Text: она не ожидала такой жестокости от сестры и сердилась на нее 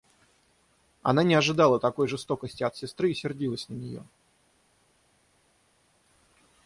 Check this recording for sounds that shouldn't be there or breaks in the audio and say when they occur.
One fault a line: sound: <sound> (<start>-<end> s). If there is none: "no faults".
no faults